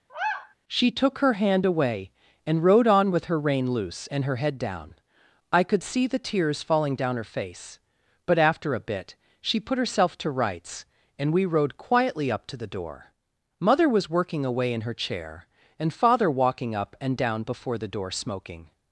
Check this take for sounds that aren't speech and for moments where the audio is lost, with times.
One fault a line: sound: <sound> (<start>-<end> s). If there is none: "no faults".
sound: sigh (0.1-0.5 s)